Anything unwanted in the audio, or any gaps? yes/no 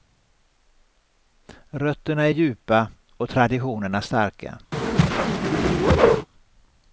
yes